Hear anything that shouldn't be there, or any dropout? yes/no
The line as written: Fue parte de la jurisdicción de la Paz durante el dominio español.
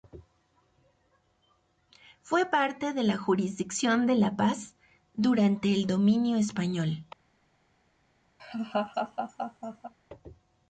yes